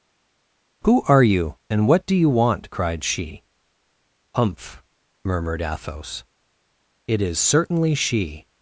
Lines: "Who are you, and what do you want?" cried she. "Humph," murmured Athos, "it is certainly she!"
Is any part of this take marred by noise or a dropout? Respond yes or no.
no